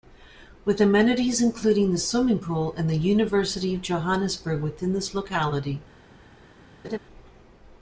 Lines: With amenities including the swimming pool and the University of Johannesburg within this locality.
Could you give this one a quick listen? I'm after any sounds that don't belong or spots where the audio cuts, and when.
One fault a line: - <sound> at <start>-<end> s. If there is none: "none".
- laugh at 6.8-7.0 s